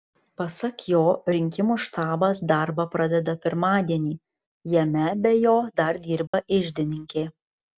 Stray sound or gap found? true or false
true